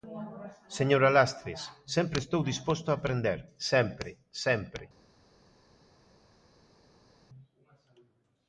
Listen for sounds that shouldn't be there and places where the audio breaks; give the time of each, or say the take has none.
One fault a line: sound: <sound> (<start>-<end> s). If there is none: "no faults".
no faults